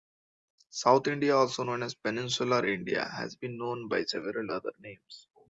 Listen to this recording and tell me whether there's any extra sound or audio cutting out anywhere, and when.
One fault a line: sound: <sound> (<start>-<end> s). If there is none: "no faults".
no faults